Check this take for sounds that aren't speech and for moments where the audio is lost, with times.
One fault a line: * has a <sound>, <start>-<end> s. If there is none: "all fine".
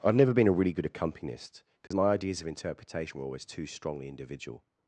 * has a dropout, 1.9-1.9 s